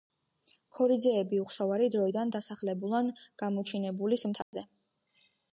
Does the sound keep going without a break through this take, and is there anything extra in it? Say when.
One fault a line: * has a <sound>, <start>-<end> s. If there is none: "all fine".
* has a dropout, 4.4-4.5 s